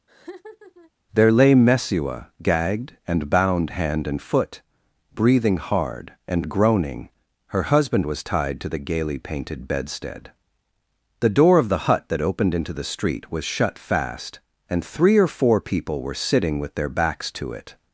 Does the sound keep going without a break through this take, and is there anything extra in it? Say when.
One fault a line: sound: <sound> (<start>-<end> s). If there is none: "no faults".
sound: laugh (0.1-0.9 s)